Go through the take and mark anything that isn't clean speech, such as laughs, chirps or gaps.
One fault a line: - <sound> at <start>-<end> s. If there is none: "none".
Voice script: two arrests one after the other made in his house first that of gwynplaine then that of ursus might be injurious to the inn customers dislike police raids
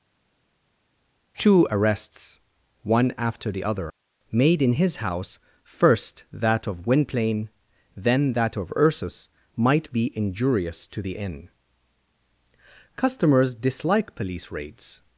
none